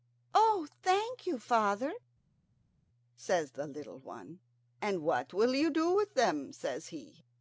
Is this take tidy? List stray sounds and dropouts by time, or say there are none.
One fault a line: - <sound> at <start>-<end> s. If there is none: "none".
none